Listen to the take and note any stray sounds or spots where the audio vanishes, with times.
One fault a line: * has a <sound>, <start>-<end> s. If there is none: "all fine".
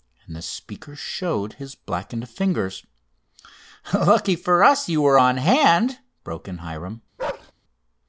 * has a bark, 7.2-7.5 s